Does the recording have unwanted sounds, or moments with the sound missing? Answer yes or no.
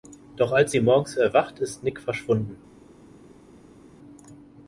no